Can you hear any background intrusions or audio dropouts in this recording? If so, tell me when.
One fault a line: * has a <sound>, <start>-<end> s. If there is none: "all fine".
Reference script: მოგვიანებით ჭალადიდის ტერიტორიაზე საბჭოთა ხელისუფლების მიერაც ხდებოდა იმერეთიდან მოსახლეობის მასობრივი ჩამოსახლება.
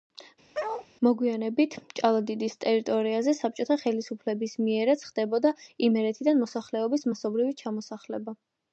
* has a bark, 0.5-0.9 s